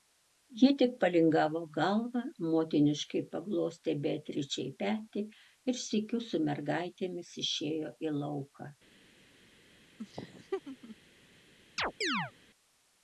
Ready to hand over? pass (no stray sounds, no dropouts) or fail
fail